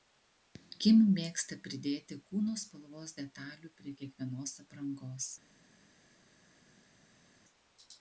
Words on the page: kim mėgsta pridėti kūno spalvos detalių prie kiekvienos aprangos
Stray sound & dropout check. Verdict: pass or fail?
pass